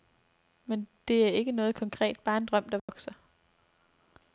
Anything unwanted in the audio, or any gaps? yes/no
yes